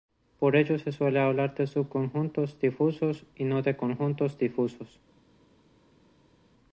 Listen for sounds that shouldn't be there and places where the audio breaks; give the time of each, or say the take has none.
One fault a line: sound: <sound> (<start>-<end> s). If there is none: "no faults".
no faults